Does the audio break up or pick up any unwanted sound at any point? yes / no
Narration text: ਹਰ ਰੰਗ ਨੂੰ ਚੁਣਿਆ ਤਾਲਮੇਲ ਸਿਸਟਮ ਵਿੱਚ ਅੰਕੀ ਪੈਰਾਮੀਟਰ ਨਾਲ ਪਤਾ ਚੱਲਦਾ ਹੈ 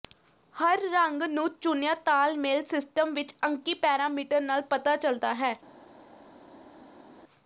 no